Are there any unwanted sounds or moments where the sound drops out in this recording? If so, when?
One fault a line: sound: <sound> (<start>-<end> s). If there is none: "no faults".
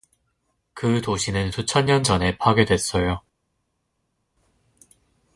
no faults